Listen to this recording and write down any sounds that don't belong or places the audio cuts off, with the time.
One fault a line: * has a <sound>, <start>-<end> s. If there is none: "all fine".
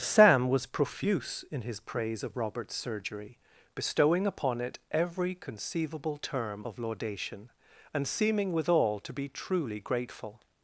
all fine